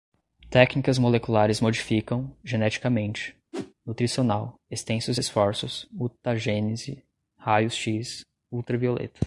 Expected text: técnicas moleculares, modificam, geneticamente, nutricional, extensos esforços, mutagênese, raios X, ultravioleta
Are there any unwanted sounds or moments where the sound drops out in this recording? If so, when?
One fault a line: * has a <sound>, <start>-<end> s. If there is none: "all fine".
* has a whoosh, 3.5-3.7 s